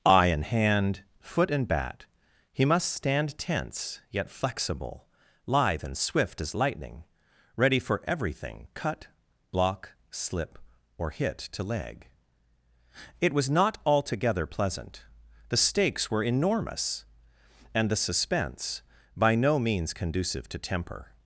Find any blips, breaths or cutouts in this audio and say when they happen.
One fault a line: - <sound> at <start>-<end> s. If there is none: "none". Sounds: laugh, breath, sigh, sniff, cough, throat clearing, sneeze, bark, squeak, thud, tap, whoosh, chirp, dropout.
none